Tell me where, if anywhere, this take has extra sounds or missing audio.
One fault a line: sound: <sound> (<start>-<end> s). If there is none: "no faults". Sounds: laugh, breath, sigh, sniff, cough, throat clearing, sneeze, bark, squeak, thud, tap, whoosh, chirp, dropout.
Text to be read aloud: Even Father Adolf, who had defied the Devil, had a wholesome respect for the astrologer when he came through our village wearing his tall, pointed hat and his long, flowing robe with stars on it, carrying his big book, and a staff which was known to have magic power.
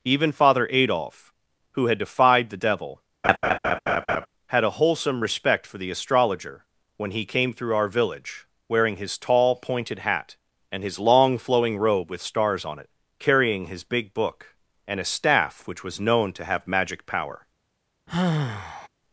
sound: laugh (3.2-4.3 s)
sound: sigh (18.1-18.9 s)